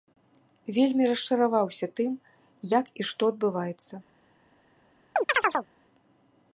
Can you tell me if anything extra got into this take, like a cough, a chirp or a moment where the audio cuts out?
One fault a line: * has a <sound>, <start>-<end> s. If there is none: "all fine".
* has a chirp, 5.2-5.7 s